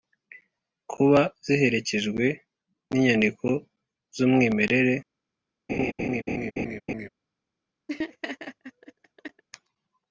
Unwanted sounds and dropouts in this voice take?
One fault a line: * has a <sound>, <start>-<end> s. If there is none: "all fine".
* has a laugh, 5.7-7.1 s
* has a laugh, 7.9-9.4 s